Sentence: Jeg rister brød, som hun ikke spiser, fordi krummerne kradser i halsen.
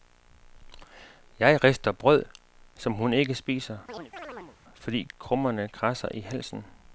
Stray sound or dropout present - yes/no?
yes